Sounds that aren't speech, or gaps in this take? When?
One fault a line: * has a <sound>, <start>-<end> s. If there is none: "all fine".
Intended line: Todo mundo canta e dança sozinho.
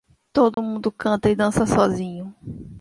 * has a dropout, 0.5-0.6 s